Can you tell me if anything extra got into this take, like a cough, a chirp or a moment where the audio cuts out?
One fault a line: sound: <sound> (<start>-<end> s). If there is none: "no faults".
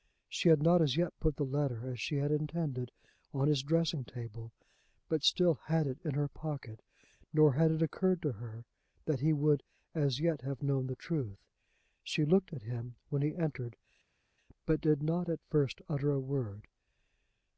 no faults